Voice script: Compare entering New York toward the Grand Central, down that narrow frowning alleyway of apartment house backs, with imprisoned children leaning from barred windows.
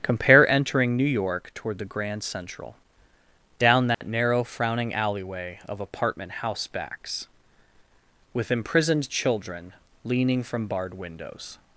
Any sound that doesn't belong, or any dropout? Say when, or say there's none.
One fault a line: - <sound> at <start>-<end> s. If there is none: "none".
- dropout at 3.9-4.0 s